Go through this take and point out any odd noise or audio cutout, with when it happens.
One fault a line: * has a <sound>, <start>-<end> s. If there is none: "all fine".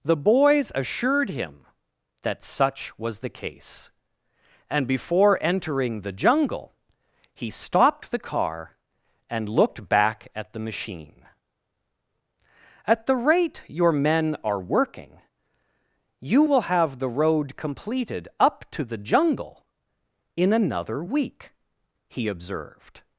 all fine